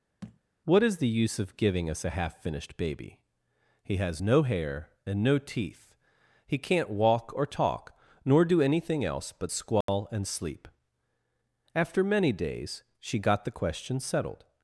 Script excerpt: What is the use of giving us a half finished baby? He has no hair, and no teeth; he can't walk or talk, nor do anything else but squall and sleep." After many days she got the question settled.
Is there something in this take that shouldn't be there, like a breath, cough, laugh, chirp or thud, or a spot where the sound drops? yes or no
yes